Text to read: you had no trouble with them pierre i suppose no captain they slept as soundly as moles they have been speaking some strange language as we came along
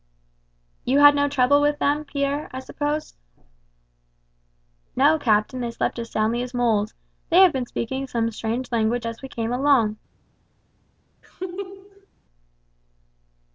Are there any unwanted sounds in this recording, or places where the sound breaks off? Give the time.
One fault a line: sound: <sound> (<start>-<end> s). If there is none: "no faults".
sound: laugh (11.2-12.1 s)